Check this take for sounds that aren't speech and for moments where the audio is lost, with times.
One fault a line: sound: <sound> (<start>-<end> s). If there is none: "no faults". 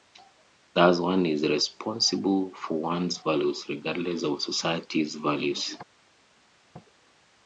no faults